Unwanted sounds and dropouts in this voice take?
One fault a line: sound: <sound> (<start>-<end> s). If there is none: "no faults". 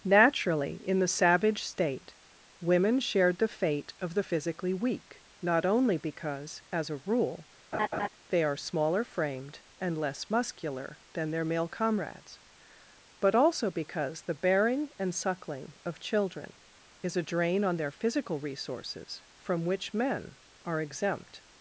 sound: laugh (7.7-8.1 s)